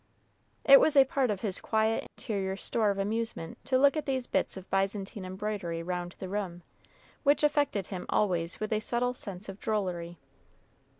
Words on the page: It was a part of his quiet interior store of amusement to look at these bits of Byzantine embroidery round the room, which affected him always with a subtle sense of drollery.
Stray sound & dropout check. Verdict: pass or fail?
fail